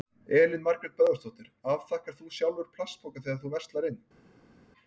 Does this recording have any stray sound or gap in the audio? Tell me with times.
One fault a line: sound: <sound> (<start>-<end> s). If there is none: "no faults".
no faults